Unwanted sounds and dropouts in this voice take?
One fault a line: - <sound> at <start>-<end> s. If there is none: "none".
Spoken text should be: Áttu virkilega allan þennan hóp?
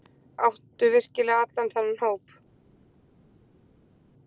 none